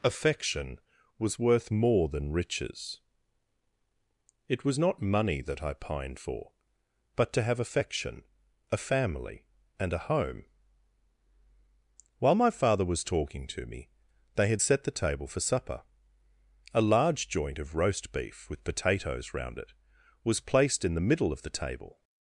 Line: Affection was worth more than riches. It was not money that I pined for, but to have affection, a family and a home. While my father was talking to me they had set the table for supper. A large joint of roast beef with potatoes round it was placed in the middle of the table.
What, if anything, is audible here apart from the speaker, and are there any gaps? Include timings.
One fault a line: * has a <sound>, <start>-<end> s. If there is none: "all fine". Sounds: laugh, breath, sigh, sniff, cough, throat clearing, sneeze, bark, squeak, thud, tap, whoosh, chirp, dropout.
all fine